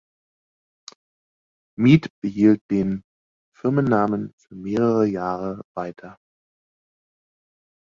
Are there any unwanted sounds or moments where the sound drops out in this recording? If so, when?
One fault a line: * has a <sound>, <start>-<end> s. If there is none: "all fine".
all fine